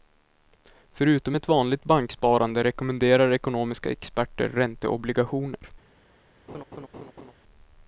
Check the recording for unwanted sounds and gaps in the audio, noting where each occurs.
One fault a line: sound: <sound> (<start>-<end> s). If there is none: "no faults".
sound: laugh (6.5-7.3 s)